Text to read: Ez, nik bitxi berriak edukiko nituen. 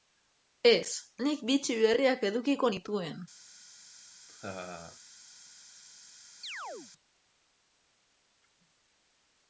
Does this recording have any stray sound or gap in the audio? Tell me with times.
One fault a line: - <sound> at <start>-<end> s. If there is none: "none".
- laugh at 4.3-5.0 s
- chirp at 6.4-6.9 s